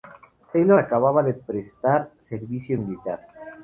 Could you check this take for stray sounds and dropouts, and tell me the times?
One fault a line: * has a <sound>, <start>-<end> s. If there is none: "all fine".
all fine